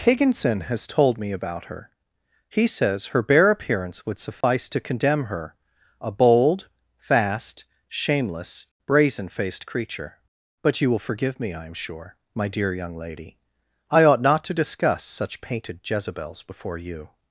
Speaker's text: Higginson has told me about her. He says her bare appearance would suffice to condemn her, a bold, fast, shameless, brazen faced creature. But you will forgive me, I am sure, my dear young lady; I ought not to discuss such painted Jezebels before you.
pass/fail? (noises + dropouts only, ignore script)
fail